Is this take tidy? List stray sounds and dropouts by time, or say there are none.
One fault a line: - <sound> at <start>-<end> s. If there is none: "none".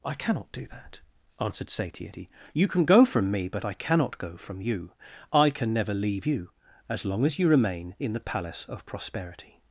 none